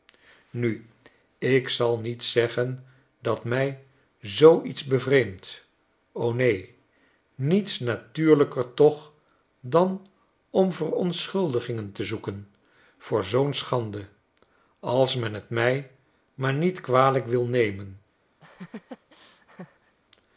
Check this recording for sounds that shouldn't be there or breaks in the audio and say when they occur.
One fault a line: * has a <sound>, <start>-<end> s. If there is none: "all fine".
* has a laugh, 18.4-20.0 s